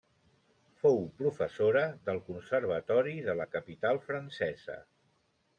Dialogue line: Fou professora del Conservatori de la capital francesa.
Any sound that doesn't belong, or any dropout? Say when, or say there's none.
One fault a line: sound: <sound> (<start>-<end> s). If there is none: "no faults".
no faults